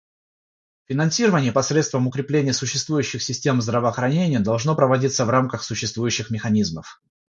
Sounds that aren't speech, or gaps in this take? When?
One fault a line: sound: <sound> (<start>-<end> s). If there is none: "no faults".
no faults